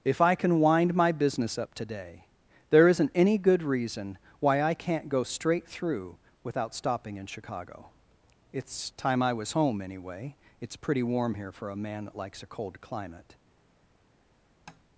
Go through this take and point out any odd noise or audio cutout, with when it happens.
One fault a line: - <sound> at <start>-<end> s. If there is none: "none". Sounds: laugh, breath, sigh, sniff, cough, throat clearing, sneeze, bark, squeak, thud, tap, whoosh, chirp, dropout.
- tap at 14.7-14.8 s